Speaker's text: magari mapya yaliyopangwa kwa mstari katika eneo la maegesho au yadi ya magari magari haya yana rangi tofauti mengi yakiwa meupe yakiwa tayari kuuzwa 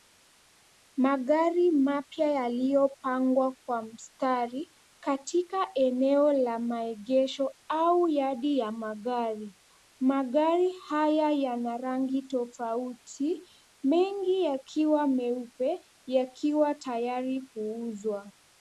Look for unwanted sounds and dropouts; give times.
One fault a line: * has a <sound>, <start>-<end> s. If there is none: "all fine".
all fine